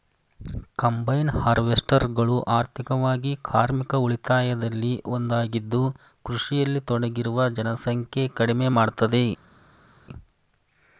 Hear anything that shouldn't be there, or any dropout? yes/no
no